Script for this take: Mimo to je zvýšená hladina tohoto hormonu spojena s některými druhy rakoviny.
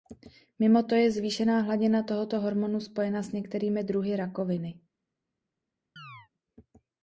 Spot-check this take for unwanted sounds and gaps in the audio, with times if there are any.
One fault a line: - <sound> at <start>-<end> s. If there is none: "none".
- chirp at 6.0-6.3 s